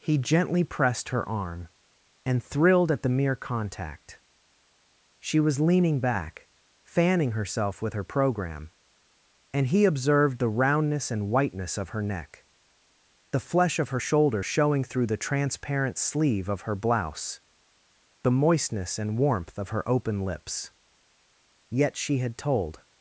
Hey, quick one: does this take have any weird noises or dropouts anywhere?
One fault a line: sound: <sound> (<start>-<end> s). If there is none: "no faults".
no faults